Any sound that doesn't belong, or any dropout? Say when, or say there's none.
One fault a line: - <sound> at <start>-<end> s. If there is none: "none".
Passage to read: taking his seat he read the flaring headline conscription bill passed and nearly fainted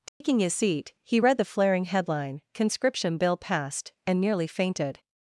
- dropout at 0.1-0.2 s